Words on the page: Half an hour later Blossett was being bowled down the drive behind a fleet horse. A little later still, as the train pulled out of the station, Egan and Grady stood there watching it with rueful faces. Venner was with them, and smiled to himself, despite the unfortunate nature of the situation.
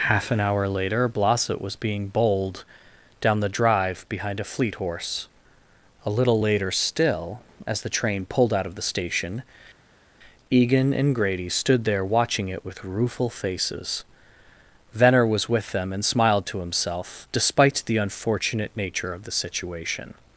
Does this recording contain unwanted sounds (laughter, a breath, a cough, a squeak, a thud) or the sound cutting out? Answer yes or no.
no